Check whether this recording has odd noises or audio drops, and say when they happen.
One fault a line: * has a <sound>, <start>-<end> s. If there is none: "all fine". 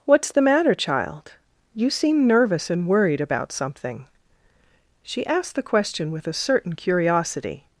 all fine